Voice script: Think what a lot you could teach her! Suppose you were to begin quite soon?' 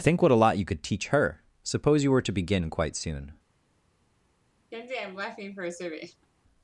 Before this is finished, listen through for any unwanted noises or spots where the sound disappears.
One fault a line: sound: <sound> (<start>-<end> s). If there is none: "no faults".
sound: laugh (4.7-6.3 s)